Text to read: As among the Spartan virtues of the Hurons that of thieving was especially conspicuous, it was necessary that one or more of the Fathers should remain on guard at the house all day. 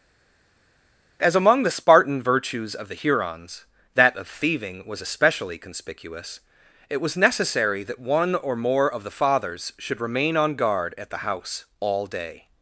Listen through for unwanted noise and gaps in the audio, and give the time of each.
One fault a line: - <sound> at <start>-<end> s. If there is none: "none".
none